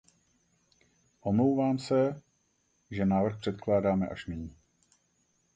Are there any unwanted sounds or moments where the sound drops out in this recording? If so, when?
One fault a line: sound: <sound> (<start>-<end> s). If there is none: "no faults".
no faults